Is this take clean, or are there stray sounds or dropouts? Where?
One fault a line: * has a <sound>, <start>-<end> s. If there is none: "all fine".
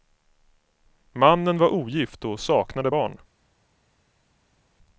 all fine